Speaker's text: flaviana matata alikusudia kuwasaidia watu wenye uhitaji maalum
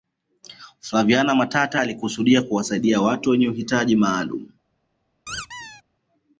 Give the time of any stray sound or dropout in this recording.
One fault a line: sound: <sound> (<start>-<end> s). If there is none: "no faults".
sound: squeak (5.3-5.8 s)